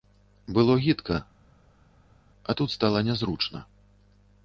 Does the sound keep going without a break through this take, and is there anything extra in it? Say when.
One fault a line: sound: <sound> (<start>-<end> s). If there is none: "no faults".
no faults